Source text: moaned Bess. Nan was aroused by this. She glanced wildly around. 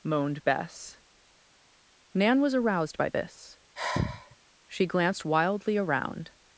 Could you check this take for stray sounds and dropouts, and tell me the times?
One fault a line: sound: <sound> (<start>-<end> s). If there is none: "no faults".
sound: sigh (3.8-4.4 s)